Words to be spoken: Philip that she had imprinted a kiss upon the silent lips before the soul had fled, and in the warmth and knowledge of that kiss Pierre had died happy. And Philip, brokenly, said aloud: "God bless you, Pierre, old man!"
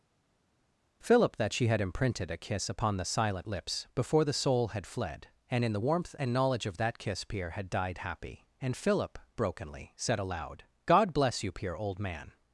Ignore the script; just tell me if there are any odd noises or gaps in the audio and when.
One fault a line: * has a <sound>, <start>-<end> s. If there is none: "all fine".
all fine